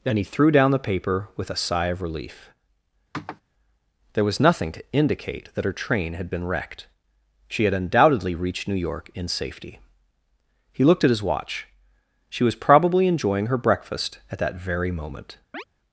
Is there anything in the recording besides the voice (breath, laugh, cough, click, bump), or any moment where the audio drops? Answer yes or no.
yes